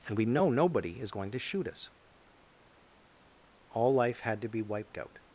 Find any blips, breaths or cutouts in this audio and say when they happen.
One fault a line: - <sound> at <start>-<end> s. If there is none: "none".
none